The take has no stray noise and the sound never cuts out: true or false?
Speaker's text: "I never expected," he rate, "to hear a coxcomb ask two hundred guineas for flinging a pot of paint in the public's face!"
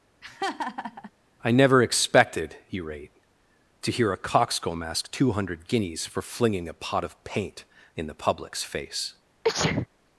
false